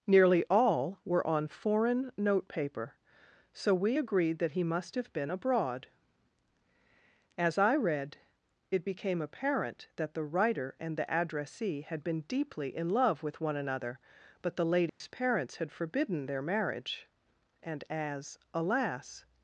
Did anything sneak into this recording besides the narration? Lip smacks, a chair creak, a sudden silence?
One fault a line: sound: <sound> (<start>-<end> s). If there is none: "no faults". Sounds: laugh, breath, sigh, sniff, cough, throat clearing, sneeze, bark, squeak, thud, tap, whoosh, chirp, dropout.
sound: dropout (14.9-15.0 s)